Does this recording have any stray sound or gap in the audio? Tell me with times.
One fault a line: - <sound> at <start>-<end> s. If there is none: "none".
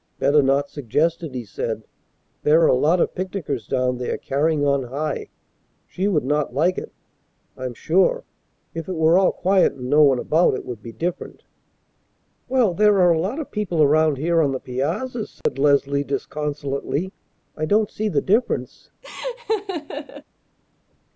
- dropout at 15.4-15.5 s
- laugh at 19.0-20.2 s